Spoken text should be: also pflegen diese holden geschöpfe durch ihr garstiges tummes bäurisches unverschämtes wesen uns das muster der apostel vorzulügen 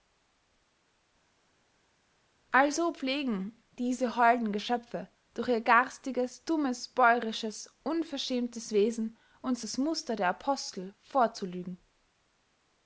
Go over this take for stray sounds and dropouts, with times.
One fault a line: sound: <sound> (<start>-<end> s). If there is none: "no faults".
no faults